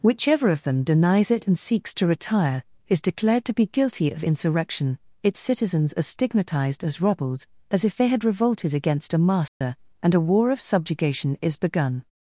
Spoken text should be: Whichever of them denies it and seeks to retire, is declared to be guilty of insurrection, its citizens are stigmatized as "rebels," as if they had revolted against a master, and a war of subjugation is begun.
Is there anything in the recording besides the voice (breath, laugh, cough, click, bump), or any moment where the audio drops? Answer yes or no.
yes